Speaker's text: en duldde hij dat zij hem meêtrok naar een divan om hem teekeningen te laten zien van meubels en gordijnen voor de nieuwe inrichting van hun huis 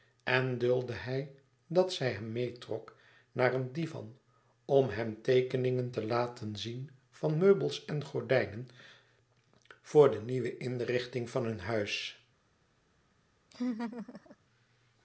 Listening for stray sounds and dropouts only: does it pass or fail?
fail